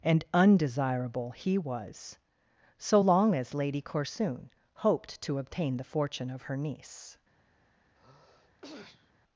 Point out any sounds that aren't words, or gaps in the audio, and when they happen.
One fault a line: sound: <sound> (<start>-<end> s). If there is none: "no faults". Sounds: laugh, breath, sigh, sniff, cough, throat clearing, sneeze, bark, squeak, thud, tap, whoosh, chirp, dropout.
sound: sneeze (7.9-9.1 s)